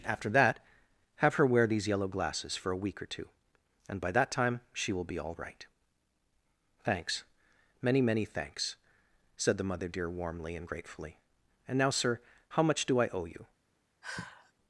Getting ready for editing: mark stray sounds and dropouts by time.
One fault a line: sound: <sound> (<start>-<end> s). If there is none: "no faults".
sound: sigh (14.0-14.5 s)